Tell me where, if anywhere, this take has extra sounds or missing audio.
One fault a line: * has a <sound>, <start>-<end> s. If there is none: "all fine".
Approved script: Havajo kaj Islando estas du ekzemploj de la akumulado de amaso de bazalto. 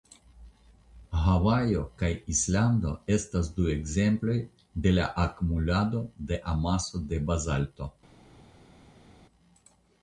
all fine